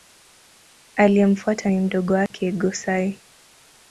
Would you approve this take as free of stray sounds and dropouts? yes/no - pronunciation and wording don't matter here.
no